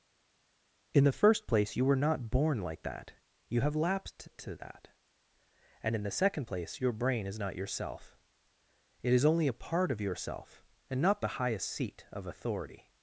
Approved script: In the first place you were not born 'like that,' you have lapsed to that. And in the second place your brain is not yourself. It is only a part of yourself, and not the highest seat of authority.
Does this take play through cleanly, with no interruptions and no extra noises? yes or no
yes